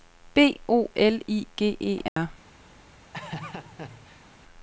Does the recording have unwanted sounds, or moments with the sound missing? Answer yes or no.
yes